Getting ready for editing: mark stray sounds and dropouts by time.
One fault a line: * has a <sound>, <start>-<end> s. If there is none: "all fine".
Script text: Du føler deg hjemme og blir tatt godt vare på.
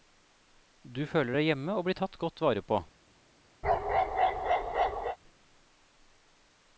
* has a bark, 3.6-5.2 s